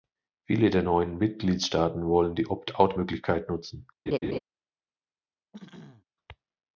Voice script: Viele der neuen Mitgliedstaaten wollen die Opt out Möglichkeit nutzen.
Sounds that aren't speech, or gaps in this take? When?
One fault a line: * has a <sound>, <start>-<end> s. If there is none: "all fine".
* has a laugh, 4.1-4.4 s
* has a throat clearing, 5.5-6.0 s